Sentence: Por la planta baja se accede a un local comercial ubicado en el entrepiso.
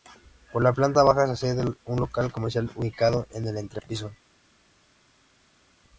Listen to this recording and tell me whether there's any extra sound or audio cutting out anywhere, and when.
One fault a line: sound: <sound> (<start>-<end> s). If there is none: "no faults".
no faults